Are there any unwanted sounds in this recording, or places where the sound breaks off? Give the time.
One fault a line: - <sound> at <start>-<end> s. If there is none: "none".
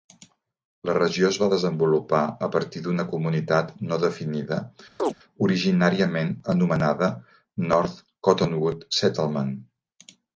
- chirp at 5.0-5.1 s